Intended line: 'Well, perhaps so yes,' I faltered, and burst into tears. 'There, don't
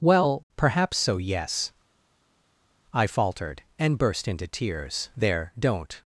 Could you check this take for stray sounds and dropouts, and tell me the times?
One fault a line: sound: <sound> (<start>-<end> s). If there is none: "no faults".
no faults